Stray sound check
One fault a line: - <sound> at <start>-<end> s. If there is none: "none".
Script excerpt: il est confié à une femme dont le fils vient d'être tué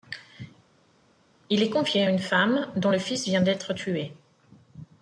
none